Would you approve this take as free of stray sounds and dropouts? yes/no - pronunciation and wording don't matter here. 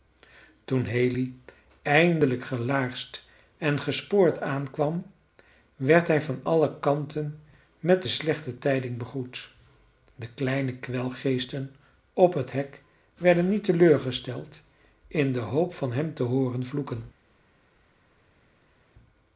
yes